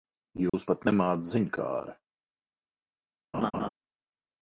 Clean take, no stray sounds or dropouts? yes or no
no